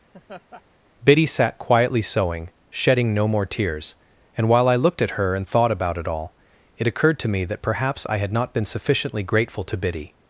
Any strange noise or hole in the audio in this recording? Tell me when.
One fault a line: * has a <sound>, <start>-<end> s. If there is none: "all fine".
* has a laugh, 0.1-0.6 s